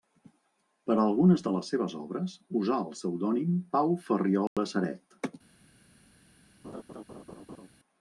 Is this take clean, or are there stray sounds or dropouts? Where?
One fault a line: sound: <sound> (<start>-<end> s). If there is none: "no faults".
sound: dropout (4.5-4.6 s)
sound: laugh (6.6-7.7 s)